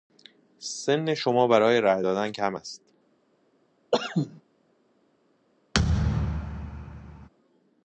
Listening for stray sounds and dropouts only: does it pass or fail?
fail